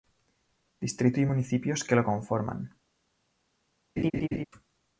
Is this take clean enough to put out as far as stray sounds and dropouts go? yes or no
no